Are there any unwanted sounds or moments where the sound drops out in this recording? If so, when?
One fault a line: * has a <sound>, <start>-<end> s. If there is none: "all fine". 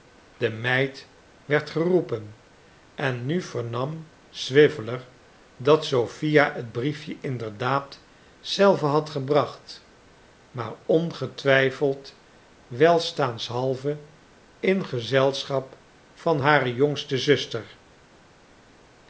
all fine